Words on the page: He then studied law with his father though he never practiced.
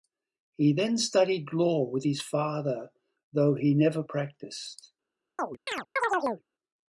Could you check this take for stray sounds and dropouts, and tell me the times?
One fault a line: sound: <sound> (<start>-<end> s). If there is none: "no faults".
sound: chirp (5.4-6.4 s)